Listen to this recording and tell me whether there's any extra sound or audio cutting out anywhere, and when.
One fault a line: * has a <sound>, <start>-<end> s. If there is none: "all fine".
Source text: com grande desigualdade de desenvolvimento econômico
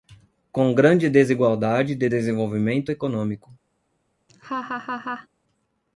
* has a laugh, 4.3-5.3 s